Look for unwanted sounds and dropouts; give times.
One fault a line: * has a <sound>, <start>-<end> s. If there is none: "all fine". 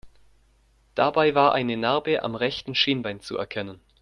all fine